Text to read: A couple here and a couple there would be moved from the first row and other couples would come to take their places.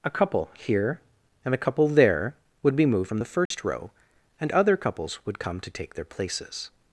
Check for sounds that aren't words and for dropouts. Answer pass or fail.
fail